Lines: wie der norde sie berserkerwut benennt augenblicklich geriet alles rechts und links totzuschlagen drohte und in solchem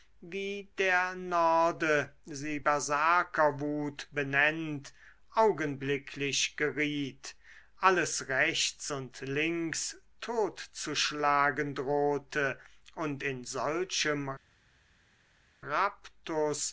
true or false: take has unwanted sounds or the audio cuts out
false